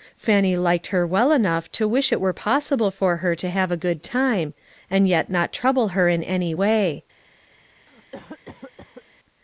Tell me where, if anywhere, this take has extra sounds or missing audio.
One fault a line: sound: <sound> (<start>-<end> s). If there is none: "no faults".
sound: cough (7.9-9.0 s)